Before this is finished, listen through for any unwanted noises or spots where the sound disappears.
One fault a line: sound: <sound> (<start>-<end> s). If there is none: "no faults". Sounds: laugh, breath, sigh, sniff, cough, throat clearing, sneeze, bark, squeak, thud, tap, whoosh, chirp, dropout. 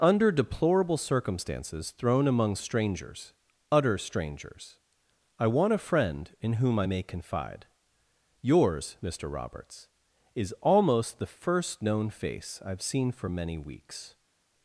no faults